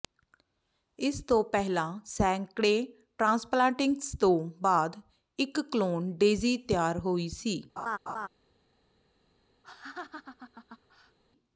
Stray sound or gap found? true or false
true